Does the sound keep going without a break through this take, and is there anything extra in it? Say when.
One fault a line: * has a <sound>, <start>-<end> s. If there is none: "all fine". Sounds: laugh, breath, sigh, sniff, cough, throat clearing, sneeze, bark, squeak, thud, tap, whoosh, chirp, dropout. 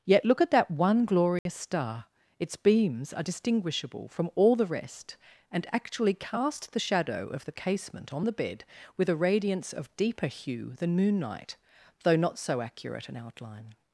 * has a dropout, 1.4-1.5 s